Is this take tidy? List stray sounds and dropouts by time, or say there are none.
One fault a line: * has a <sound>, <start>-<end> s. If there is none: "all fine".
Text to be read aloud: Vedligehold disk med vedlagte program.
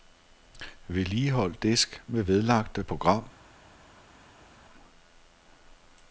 all fine